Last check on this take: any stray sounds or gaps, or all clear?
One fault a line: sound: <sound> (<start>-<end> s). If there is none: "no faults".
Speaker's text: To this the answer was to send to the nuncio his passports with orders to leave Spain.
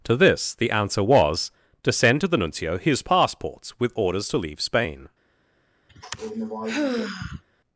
sound: sigh (5.9-7.4 s)